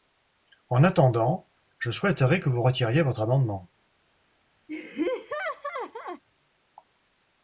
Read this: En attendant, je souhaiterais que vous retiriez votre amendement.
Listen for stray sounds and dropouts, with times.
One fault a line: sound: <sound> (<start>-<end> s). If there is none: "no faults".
sound: laugh (4.7-6.2 s)